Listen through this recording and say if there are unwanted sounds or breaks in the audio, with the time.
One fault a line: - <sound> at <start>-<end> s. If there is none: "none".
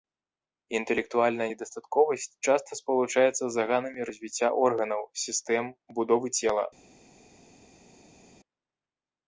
none